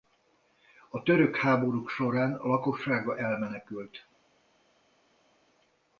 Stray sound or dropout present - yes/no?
no